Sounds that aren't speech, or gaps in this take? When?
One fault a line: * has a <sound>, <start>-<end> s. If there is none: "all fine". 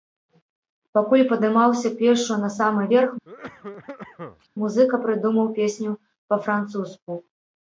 * has a cough, 3.2-4.5 s